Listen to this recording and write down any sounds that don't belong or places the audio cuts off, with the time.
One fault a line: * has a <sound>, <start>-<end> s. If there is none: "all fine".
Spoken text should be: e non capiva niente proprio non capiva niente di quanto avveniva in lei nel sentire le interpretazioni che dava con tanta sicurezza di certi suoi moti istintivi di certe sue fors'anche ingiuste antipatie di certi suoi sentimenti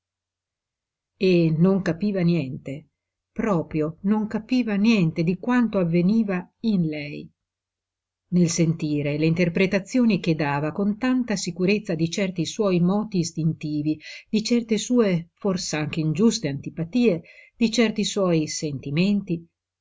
all fine